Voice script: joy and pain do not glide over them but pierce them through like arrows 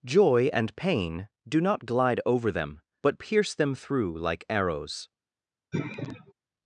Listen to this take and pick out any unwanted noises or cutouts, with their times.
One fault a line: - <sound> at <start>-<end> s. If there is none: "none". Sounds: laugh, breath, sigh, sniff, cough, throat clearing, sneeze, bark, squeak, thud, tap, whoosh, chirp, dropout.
- sigh at 5.7-6.3 s